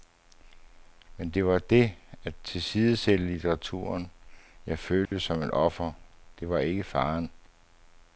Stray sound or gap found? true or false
true